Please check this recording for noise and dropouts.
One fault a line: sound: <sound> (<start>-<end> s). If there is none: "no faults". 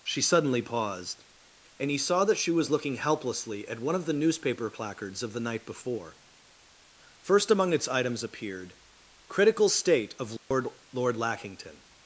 sound: dropout (10.4-10.5 s)